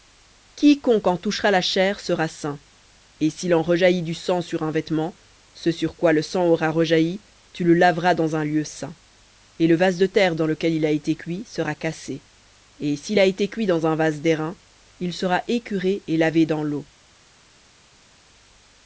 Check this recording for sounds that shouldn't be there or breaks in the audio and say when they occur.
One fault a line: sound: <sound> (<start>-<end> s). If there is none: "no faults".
no faults